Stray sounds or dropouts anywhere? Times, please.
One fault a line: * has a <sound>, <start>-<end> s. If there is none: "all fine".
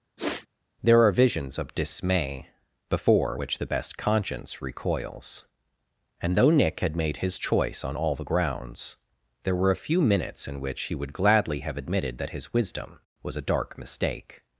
* has a sniff, 0.2-0.5 s